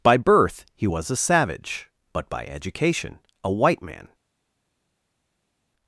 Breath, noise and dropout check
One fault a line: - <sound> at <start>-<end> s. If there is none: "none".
none